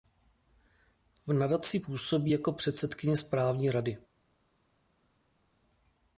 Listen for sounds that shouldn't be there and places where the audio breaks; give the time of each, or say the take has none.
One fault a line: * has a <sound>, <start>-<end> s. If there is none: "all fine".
all fine